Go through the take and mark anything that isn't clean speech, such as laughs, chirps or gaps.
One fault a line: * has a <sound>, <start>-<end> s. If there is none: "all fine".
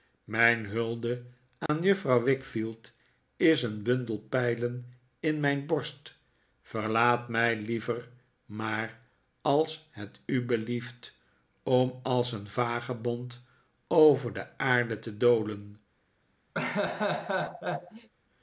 * has a dropout, 1.7-1.7 s
* has a laugh, 16.5-18.1 s